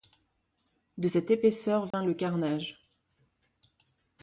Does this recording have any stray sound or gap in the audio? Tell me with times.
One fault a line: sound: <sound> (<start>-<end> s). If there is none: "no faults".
sound: dropout (1.9-1.9 s)